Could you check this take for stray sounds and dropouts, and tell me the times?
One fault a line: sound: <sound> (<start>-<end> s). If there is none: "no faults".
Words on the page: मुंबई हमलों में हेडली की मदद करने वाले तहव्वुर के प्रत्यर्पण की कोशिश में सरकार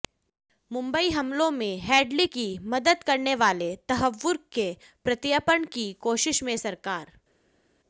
no faults